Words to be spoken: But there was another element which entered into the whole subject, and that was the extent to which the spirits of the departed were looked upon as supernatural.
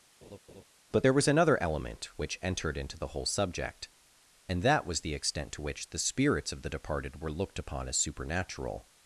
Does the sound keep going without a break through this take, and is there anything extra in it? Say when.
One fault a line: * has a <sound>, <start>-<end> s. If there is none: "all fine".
* has a laugh, 0.2-0.6 s